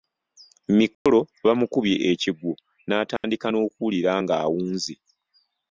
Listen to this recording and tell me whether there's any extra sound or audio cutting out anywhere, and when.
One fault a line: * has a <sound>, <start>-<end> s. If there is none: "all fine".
* has a dropout, 0.9-1.1 s
* has a dropout, 3.2-3.2 s